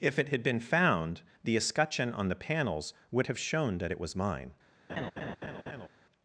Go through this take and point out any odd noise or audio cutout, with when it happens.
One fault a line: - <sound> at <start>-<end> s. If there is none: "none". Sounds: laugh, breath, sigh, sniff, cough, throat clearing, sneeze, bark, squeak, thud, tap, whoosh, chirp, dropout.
- laugh at 4.9-5.9 s